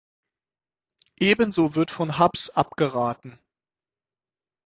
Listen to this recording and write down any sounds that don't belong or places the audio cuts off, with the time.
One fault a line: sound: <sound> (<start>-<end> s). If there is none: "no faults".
no faults